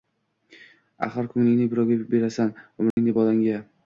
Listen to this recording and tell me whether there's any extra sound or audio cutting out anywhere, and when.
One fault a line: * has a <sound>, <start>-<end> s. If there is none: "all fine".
* has a dropout, 2.9-3.0 s